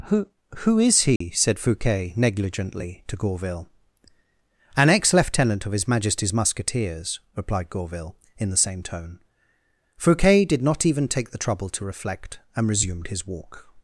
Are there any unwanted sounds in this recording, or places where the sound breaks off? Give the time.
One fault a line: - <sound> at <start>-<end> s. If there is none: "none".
- dropout at 1.2-1.2 s